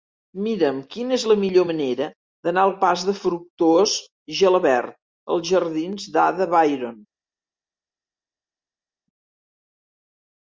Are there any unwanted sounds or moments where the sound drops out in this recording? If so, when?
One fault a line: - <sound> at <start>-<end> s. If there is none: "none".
none